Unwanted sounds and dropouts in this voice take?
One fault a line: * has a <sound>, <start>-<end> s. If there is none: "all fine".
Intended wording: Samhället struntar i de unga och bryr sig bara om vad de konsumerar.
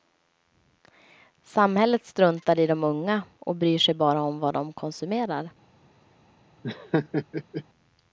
* has a laugh, 6.6-7.6 s